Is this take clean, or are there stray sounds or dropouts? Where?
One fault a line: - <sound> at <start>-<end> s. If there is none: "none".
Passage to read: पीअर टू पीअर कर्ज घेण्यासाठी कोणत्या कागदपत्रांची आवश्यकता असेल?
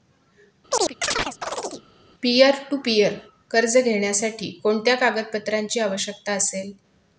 - chirp at 0.7-1.8 s